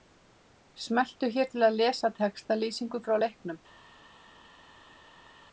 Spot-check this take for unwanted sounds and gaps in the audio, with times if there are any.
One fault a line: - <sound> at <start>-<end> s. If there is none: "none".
none